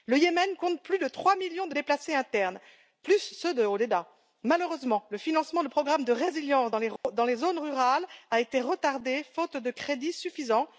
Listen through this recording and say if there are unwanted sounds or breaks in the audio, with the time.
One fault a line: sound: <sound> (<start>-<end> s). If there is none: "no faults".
sound: dropout (7.0-7.0 s)